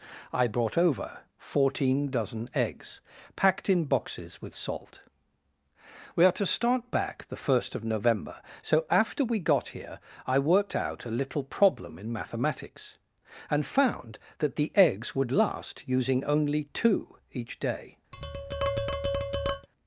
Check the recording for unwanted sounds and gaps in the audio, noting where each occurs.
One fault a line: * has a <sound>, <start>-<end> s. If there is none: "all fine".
* has a tap, 18.1-19.7 s